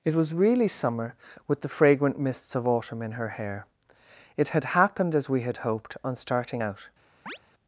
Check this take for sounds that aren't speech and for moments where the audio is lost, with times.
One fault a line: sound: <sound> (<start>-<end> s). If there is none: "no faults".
sound: chirp (7.3-7.4 s)